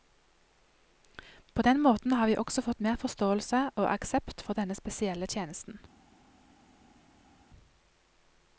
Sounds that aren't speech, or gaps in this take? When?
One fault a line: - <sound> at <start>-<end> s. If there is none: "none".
none